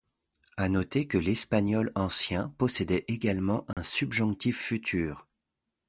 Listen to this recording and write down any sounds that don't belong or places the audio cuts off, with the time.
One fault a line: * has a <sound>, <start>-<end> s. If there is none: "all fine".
* has a dropout, 3.7-3.8 s